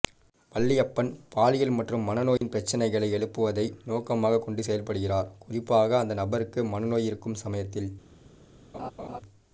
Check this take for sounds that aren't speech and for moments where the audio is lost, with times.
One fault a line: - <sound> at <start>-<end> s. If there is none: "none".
- dropout at 2.4-2.4 s
- laugh at 8.7-9.2 s